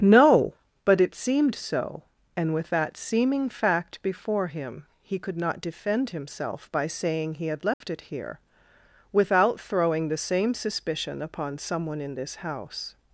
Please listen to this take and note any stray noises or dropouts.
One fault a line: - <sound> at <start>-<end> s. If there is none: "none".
- dropout at 7.7-7.8 s